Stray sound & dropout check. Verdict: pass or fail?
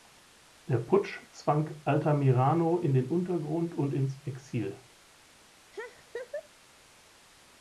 fail